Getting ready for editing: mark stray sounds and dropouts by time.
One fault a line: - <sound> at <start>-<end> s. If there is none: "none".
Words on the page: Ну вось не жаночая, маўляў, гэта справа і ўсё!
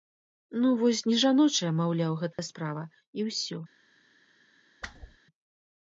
- dropout at 2.3-2.4 s
- whoosh at 4.8-5.2 s